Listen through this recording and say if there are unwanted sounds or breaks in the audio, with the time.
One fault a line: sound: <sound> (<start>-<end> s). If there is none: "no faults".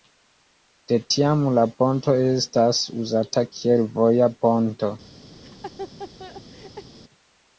sound: laugh (5.4-6.9 s)